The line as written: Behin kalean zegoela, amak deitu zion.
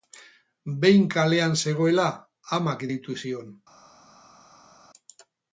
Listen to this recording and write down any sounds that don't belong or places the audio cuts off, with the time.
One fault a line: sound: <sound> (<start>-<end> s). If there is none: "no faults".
no faults